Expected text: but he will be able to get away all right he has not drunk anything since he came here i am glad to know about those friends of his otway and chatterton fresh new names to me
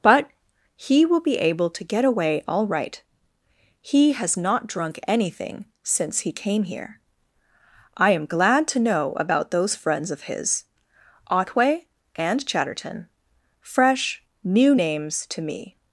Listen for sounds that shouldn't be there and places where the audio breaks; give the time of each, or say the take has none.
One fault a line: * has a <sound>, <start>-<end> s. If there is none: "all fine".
all fine